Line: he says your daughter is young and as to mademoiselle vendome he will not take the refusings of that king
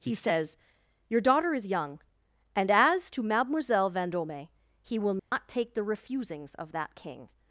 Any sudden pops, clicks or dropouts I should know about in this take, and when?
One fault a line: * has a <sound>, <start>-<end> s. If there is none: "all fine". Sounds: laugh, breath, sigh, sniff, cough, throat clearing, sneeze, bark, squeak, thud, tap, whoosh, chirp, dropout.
* has a dropout, 5.2-5.3 s